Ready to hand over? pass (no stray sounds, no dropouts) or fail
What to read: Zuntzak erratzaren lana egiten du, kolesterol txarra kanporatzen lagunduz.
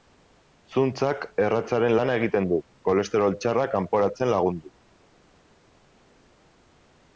pass